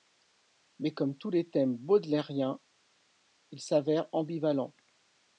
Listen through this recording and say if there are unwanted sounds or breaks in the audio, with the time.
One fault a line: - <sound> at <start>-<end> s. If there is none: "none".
none